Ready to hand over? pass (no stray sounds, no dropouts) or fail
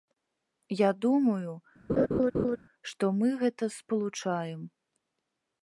fail